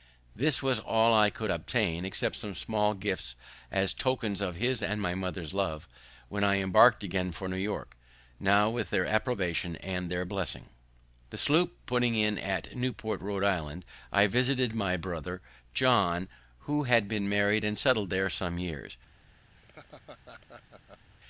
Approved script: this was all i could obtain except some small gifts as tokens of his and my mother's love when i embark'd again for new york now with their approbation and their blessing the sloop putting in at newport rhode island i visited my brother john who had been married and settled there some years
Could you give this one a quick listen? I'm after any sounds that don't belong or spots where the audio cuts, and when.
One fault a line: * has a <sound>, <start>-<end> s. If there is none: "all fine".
* has a laugh, 19.5-21.1 s